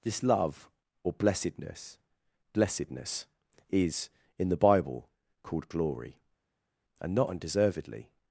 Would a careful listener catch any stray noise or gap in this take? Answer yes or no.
no